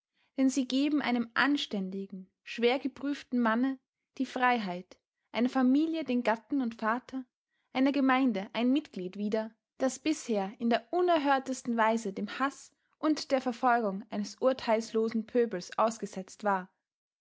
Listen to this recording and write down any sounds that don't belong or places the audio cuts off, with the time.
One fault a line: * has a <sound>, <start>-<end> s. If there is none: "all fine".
all fine